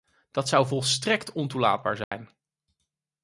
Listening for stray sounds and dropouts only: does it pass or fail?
fail